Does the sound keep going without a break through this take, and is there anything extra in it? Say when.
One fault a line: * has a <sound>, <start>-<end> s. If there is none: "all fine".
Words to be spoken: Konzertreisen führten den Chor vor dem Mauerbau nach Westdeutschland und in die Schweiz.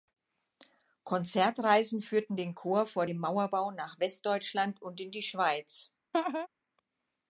* has a laugh, 6.1-6.5 s